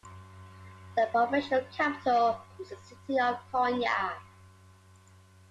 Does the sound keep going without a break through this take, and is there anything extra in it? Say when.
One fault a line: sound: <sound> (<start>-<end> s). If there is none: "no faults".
no faults